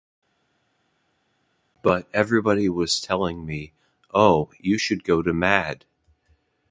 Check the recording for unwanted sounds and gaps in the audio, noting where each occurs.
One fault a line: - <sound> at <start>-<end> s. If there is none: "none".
none